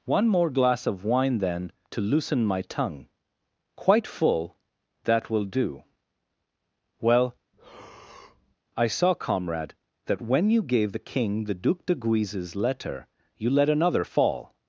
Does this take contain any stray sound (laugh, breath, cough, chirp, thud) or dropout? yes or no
yes